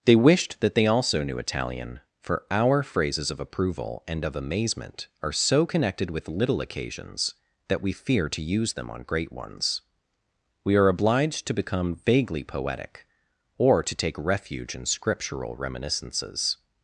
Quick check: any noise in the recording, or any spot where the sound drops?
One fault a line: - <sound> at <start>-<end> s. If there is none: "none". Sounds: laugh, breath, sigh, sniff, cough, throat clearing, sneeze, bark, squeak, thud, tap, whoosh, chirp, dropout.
none